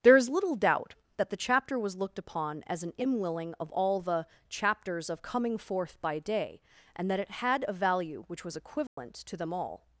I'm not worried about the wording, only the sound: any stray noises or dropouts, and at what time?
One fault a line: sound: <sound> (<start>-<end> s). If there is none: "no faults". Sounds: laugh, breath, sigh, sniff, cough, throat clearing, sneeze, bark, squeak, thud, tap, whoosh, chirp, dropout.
sound: dropout (8.9-9.0 s)